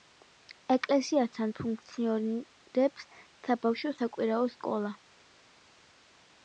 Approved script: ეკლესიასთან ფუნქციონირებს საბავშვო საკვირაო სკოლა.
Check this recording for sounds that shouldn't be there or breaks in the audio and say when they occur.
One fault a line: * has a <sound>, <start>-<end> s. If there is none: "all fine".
all fine